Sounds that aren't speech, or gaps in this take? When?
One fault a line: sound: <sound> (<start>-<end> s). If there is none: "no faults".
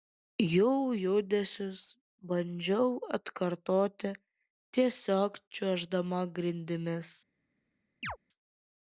sound: chirp (8.0-8.2 s)